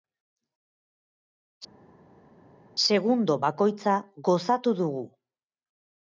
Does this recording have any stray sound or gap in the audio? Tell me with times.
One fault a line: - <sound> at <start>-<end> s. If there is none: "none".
none